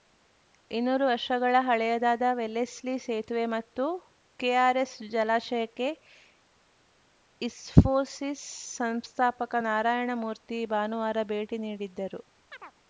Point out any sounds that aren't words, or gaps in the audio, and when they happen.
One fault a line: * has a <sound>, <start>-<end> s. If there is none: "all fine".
* has a chirp, 12.5-12.7 s